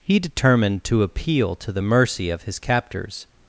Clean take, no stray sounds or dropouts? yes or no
yes